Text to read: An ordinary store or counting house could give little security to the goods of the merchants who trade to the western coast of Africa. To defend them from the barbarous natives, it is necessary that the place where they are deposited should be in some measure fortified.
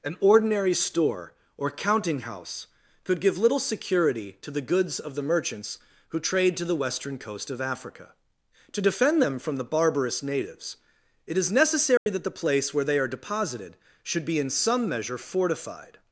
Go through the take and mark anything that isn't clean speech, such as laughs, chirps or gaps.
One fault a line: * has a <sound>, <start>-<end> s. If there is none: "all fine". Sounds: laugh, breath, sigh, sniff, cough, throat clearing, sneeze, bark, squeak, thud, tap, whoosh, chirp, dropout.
* has a dropout, 12.0-12.1 s